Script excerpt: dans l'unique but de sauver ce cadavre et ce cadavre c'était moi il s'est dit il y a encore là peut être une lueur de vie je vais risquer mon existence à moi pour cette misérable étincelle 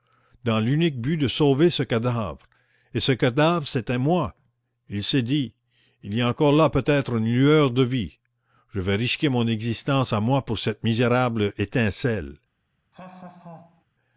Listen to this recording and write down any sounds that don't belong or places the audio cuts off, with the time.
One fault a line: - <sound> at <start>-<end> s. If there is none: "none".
- laugh at 12.9-13.9 s